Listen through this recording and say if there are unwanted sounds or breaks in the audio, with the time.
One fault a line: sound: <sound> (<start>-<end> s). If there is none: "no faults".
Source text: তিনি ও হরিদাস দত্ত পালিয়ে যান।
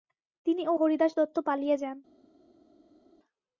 no faults